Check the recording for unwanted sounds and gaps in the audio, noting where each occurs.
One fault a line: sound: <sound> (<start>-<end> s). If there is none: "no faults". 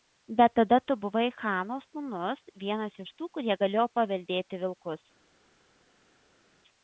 no faults